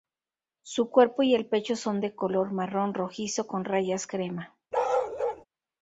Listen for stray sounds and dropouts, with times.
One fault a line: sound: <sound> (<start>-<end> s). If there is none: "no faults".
sound: bark (4.7-5.5 s)